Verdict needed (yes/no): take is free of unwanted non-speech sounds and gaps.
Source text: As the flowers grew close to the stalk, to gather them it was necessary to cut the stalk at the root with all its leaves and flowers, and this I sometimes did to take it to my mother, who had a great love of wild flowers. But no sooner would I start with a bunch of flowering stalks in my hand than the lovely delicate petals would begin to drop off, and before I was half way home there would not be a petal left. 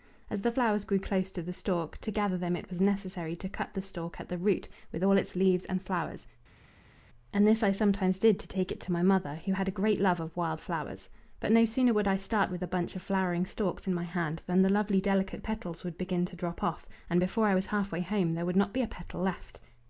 yes